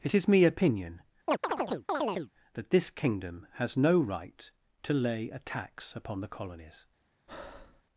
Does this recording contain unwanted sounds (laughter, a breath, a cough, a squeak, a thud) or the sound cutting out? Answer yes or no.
yes